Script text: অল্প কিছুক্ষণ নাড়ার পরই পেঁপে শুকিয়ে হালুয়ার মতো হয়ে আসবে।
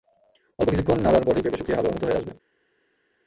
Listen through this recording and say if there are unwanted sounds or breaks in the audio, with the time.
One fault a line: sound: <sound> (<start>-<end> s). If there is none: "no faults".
no faults